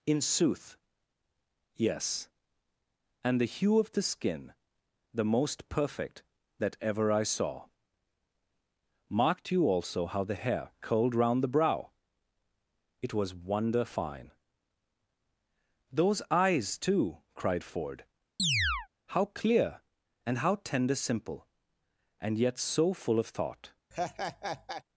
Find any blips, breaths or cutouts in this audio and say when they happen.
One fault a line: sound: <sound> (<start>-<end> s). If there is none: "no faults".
sound: chirp (18.4-18.9 s)
sound: laugh (23.9-24.8 s)